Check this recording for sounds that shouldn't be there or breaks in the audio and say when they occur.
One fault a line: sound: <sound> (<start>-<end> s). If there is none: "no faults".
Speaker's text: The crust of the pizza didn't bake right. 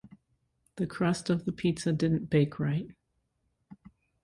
no faults